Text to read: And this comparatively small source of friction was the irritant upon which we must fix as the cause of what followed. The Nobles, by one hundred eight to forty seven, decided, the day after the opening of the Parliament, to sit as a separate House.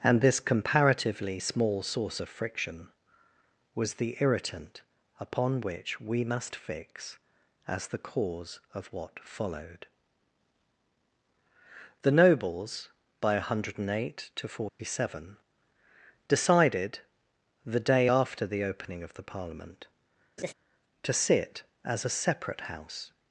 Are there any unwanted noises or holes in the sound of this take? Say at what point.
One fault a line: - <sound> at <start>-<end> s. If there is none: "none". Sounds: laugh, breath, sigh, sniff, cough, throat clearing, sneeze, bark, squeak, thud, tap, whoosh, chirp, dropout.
- dropout at 14.7-14.8 s
- laugh at 20.4-20.5 s